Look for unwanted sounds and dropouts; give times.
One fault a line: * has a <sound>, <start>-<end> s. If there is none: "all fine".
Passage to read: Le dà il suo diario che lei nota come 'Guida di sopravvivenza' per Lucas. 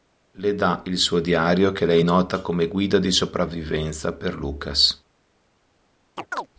* has a chirp, 6.2-6.5 s